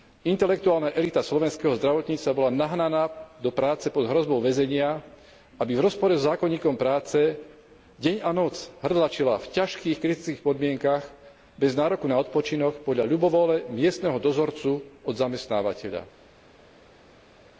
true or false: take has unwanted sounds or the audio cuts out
false